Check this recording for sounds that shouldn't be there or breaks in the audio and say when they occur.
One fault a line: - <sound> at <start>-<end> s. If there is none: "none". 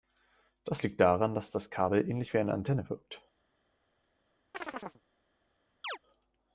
- chirp at 4.5-5.0 s
- chirp at 5.8-6.0 s